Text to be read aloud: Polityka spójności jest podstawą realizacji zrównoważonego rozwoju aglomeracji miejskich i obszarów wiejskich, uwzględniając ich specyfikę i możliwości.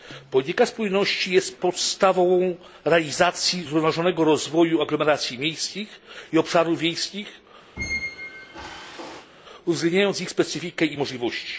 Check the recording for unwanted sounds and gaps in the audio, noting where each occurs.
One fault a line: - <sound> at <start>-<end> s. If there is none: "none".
- squeak at 7.8-9.3 s